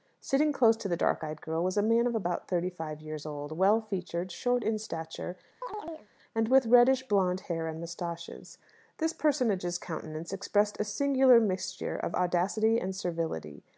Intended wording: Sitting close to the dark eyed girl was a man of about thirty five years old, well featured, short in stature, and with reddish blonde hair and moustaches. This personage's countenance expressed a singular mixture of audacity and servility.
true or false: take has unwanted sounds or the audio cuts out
true